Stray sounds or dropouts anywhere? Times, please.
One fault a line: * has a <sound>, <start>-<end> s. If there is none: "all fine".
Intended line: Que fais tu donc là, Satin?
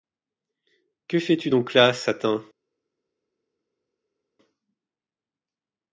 all fine